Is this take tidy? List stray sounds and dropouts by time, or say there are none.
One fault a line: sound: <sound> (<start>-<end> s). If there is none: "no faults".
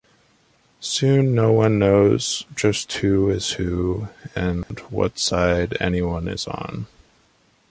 sound: dropout (4.6-4.7 s)